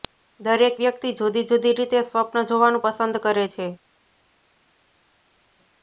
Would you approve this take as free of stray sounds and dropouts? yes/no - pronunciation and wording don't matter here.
yes